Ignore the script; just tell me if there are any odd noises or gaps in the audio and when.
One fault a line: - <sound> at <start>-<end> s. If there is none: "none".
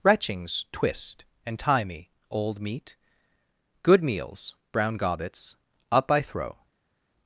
none